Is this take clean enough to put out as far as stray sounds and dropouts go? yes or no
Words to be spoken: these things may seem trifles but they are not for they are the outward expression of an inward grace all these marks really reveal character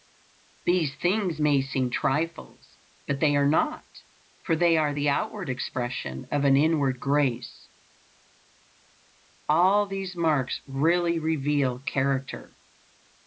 yes